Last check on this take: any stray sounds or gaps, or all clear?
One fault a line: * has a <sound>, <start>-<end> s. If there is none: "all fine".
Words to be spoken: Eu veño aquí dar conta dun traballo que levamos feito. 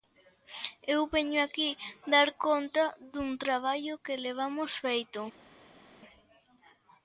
all fine